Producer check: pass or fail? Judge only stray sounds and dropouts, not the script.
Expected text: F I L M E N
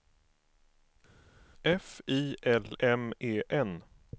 pass